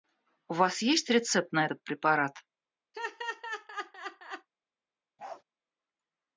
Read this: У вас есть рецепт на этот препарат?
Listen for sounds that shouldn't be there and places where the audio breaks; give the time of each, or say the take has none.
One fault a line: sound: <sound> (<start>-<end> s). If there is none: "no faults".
sound: laugh (2.9-4.5 s)
sound: bark (5.2-5.4 s)